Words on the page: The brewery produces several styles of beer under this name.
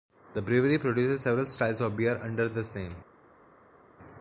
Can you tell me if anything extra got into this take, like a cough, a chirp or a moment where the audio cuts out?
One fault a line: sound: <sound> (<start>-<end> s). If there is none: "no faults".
no faults